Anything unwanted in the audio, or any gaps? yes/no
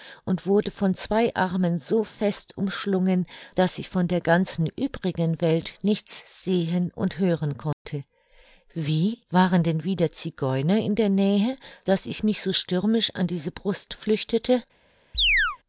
yes